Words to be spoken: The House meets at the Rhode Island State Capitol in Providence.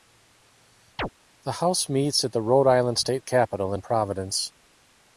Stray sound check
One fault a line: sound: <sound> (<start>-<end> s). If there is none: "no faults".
sound: chirp (1.0-1.1 s)